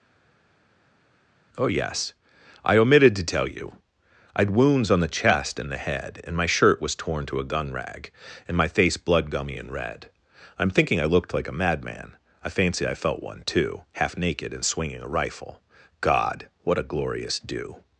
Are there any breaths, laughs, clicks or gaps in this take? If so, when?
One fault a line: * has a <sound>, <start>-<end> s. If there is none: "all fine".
all fine